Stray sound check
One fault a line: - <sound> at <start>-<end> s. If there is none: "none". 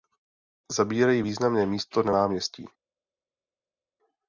none